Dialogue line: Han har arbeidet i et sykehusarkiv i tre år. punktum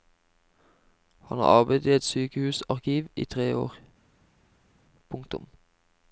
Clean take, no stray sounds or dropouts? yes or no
yes